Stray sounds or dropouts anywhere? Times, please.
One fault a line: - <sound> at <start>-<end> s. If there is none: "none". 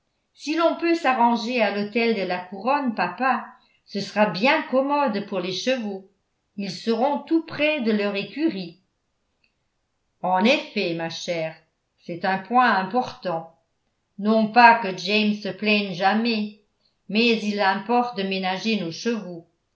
none